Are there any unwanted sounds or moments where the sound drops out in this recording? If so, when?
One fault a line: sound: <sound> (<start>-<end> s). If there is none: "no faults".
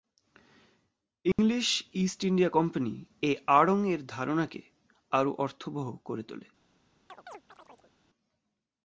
sound: dropout (1.3-1.4 s)
sound: chirp (7.1-7.9 s)